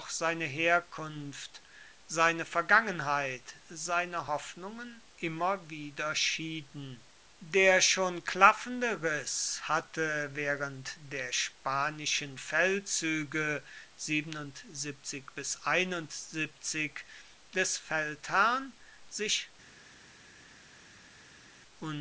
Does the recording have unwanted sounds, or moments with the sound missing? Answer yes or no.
no